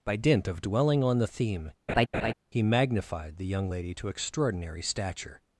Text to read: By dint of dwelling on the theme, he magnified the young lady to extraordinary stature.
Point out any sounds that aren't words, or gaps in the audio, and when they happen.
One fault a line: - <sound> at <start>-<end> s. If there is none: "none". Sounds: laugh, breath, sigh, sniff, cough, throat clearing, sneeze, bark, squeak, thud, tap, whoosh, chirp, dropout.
- laugh at 1.9-2.3 s